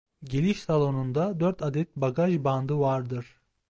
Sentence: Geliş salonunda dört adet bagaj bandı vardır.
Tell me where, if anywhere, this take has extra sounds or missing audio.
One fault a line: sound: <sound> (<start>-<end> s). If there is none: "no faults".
no faults